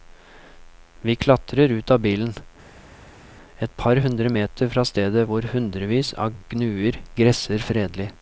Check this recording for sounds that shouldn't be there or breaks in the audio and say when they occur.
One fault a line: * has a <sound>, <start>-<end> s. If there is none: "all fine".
all fine